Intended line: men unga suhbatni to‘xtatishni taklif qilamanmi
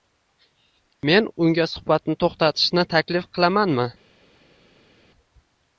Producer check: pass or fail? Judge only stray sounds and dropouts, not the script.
pass